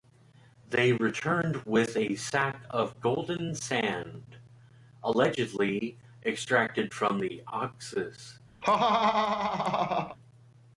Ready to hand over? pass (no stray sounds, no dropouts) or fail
fail